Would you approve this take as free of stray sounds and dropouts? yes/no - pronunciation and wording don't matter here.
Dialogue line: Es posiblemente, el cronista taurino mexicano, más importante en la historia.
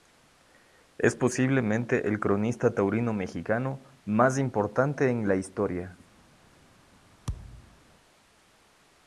no